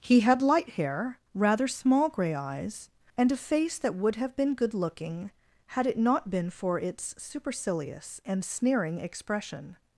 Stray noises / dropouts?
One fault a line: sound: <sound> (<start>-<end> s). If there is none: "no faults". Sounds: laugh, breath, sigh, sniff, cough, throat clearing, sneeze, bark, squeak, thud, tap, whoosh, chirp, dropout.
no faults